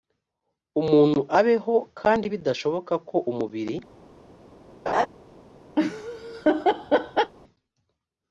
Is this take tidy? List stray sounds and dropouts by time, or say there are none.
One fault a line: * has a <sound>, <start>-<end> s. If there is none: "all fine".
* has a laugh, 4.9-5.1 s
* has a laugh, 5.8-7.3 s